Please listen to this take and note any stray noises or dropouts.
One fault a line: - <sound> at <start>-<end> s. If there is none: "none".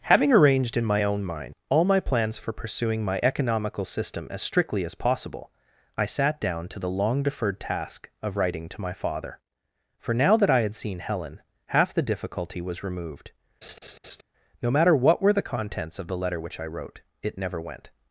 - laugh at 13.6-14.2 s